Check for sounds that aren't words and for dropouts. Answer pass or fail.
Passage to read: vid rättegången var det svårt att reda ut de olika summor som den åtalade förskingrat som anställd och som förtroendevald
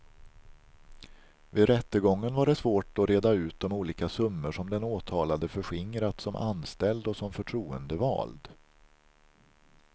pass